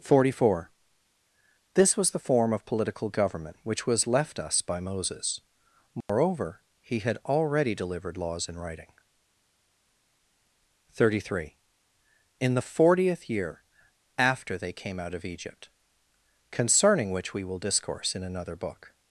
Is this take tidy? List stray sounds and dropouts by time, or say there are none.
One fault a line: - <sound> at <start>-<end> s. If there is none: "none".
- dropout at 6.0-6.1 s